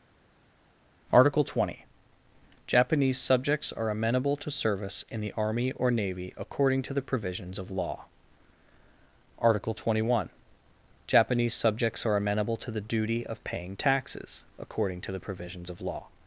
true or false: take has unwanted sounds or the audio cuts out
false